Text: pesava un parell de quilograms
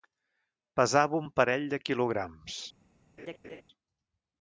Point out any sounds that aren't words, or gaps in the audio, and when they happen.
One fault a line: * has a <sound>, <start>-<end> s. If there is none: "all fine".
* has a laugh, 3.2-3.6 s